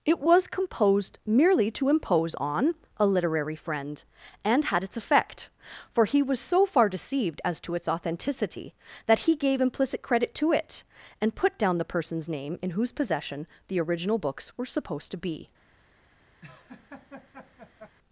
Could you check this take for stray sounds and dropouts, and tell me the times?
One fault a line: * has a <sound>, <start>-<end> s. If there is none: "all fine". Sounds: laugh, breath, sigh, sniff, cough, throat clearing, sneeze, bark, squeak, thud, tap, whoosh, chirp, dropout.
* has a laugh, 16.4-18.0 s